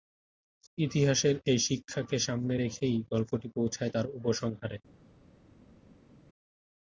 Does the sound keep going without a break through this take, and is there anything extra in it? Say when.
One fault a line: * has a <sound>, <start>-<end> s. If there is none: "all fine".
all fine